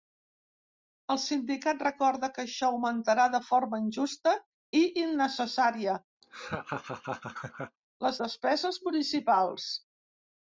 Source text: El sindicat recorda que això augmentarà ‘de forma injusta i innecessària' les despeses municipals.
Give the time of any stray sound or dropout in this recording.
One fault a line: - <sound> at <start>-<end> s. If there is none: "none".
- laugh at 6.2-7.8 s